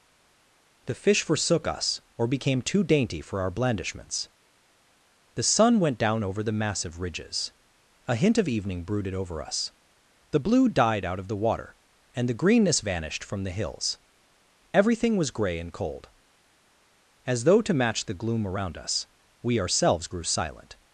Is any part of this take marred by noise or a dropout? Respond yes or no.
no